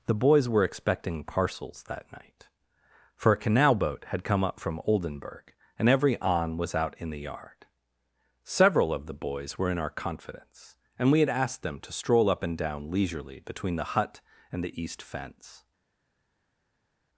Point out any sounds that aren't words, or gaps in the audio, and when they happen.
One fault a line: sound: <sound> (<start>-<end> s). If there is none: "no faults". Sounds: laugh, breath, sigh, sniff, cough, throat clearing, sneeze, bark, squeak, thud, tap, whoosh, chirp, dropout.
no faults